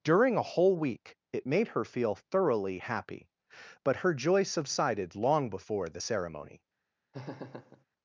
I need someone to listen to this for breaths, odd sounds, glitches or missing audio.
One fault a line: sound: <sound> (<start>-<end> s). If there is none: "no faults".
sound: laugh (7.1-7.9 s)